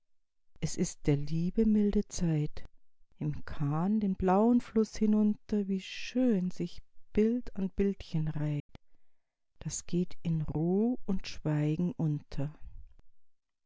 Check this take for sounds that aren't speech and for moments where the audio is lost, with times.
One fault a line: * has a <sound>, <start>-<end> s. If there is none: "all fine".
* has a dropout, 8.6-8.7 s